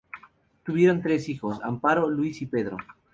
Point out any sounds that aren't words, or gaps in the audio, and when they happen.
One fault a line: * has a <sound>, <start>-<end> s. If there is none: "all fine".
all fine